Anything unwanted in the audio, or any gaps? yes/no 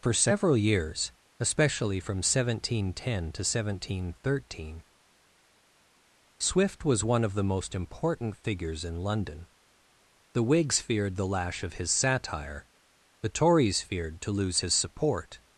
no